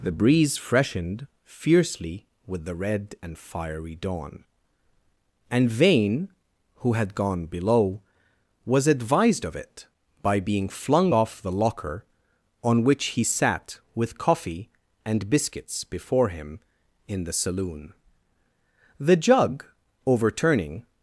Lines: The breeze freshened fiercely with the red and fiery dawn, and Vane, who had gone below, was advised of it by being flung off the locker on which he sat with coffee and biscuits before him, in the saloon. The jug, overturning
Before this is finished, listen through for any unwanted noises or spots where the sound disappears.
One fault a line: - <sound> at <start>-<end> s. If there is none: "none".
none